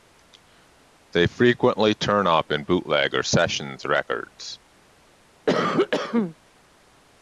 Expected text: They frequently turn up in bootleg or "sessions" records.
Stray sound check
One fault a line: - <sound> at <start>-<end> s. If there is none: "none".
- cough at 5.5-6.4 s